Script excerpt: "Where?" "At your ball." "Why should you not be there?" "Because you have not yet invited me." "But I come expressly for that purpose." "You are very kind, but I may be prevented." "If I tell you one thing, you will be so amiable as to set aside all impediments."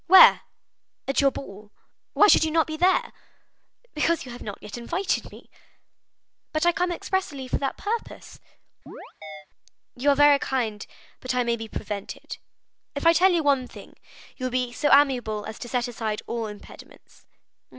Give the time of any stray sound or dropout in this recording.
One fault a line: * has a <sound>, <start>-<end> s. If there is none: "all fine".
* has a chirp, 8.9-9.5 s